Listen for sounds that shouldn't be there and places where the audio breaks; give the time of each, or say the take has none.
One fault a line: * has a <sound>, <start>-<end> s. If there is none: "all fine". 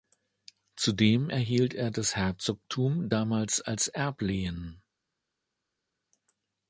all fine